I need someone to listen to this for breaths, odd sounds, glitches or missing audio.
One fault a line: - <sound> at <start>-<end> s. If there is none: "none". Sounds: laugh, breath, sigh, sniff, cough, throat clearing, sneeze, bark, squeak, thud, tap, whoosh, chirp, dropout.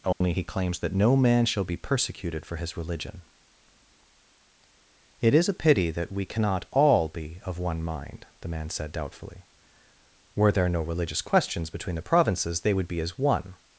- dropout at 0.1-0.2 s